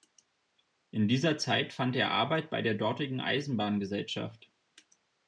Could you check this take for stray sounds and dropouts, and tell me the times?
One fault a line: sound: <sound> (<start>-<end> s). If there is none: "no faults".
no faults